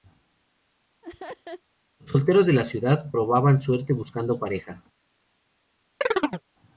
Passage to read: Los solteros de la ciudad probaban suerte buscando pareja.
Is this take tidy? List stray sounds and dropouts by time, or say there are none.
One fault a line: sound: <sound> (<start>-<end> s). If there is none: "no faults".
sound: laugh (1.0-1.6 s)
sound: chirp (6.0-6.4 s)